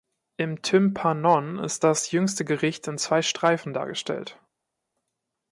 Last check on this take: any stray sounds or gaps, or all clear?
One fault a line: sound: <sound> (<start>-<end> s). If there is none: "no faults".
no faults